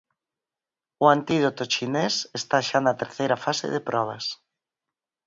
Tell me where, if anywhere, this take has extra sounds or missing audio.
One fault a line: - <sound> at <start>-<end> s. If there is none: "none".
none